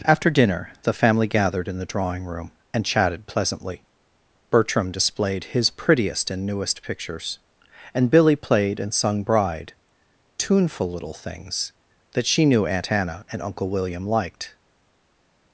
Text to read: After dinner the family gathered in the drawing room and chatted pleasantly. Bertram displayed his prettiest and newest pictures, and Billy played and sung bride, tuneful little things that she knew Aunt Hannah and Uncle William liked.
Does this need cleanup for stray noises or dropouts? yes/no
no